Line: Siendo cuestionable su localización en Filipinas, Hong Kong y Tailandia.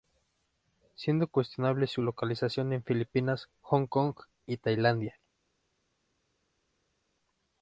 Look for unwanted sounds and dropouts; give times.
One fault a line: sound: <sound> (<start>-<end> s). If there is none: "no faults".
no faults